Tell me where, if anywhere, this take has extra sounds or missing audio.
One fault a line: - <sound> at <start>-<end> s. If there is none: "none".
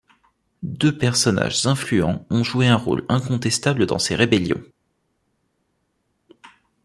none